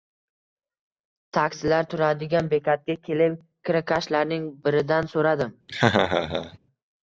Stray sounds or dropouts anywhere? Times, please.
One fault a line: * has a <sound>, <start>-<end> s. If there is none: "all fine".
* has a laugh, 5.7-6.6 s